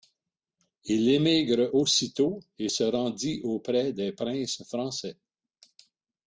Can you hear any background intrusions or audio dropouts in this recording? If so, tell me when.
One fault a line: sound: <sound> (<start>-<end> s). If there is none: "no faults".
no faults